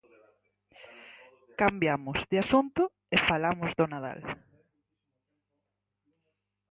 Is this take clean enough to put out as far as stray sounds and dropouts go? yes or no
yes